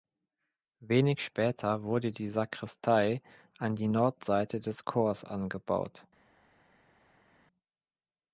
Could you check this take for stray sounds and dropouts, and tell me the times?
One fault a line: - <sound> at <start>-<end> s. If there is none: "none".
none